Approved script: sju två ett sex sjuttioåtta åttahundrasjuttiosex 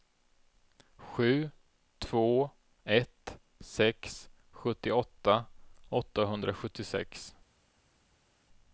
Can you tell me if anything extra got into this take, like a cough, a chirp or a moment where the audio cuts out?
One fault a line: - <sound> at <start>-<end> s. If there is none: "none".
none